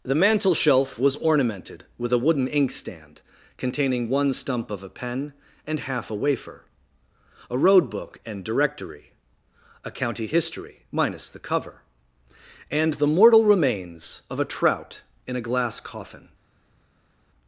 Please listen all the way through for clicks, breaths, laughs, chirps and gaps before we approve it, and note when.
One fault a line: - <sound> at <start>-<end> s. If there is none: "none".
none